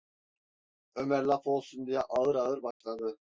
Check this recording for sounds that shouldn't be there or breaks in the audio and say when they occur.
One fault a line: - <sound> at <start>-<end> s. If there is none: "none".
- dropout at 2.7-2.8 s